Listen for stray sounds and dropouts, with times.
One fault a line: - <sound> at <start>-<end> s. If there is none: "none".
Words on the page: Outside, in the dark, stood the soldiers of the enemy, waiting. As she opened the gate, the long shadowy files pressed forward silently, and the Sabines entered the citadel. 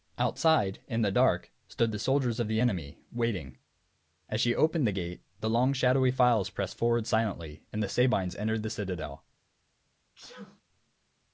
- sneeze at 10.1-10.6 s